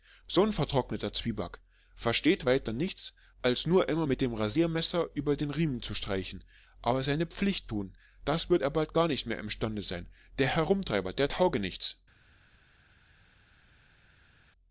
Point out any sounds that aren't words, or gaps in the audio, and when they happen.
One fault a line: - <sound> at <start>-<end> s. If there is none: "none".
none